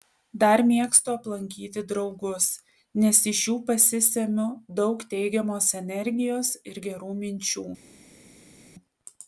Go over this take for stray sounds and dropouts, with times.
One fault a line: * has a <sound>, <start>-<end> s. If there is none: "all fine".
all fine